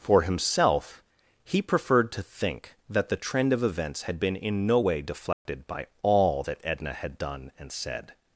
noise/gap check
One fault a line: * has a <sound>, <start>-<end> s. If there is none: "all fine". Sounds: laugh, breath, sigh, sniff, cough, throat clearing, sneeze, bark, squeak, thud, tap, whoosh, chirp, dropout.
* has a dropout, 5.3-5.5 s